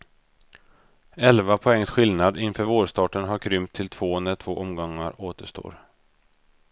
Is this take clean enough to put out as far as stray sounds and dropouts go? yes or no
yes